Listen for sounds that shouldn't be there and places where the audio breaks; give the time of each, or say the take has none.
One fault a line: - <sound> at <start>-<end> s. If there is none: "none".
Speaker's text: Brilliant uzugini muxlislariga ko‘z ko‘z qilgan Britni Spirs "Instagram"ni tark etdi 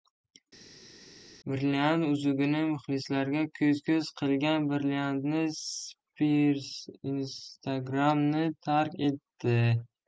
none